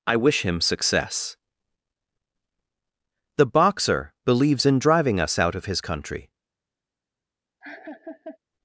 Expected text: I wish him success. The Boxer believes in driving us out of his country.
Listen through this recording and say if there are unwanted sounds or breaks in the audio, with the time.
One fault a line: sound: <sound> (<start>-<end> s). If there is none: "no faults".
sound: laugh (7.6-8.4 s)